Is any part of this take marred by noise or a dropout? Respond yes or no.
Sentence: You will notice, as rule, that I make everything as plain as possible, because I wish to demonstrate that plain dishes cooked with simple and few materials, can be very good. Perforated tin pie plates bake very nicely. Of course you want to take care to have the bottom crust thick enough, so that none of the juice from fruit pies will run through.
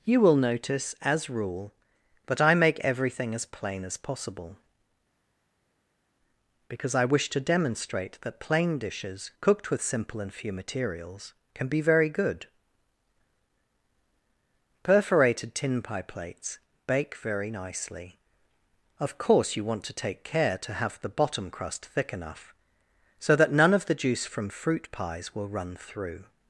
no